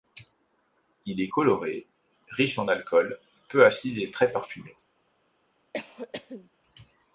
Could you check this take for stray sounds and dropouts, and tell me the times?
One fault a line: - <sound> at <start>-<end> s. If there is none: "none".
- cough at 5.7-6.5 s